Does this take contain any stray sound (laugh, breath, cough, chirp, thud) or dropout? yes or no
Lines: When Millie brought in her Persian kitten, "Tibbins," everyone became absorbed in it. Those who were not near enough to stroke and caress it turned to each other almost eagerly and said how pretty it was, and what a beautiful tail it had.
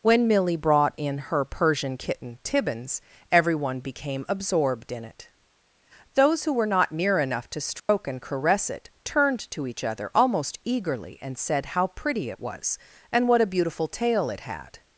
yes